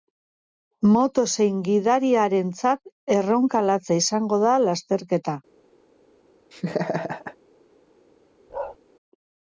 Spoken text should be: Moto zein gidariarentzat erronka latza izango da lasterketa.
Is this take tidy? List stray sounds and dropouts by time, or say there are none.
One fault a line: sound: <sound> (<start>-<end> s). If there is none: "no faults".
sound: laugh (6.5-7.4 s)
sound: bark (8.5-8.8 s)